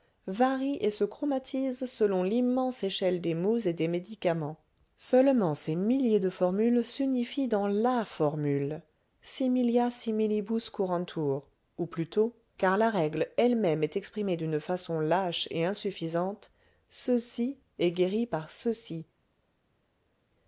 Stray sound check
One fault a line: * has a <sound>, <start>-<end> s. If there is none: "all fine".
all fine